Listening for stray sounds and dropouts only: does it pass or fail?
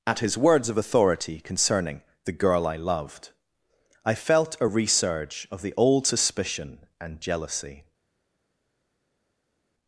pass